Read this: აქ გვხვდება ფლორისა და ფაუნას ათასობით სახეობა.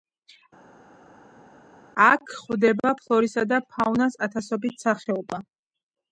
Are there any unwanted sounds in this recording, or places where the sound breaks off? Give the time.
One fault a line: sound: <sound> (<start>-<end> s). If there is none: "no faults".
no faults